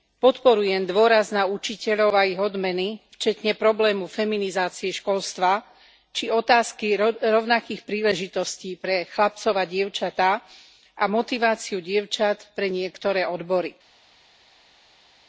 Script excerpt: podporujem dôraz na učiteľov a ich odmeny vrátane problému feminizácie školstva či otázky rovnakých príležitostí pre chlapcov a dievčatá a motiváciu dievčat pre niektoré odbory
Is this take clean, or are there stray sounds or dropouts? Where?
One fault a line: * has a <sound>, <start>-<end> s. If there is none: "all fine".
all fine